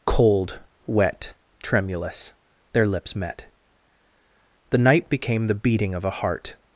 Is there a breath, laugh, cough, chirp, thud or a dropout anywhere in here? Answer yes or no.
no